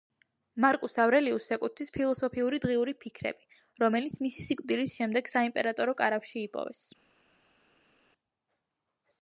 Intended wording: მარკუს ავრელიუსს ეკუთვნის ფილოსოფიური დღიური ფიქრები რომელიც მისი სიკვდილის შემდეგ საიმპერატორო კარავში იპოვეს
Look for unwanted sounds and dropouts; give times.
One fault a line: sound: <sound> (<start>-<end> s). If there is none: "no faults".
no faults